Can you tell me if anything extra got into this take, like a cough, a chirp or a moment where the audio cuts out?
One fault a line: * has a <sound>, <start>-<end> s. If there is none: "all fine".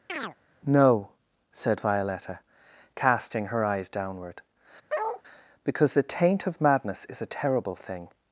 * has a chirp, 0.1-0.4 s
* has a bark, 4.9-5.2 s